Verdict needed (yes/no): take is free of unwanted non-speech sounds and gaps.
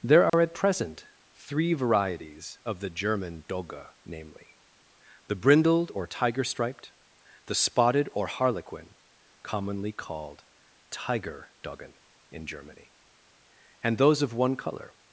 no